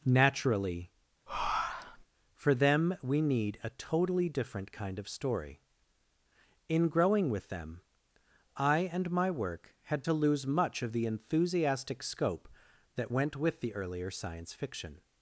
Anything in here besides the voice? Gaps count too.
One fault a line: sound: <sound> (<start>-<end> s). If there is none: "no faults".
sound: breath (1.3-2.0 s)